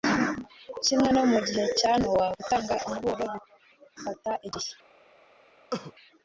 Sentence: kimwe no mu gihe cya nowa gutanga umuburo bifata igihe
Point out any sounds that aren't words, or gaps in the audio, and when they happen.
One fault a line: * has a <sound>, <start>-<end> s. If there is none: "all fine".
* has a cough, 5.7-5.9 s